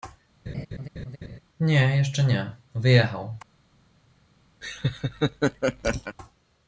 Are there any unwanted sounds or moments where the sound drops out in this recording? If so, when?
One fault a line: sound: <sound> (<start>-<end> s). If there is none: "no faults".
sound: laugh (0.5-1.4 s)
sound: laugh (4.6-6.2 s)